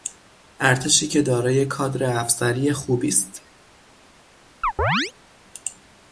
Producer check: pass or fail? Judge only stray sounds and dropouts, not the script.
fail